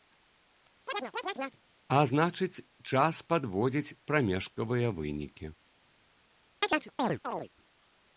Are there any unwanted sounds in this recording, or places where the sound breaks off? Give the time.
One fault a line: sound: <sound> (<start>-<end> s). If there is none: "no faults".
sound: chirp (0.9-1.6 s)
sound: chirp (6.6-7.5 s)